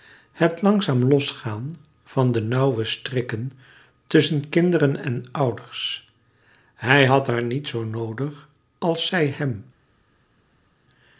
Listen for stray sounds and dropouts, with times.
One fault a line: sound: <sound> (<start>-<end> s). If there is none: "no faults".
no faults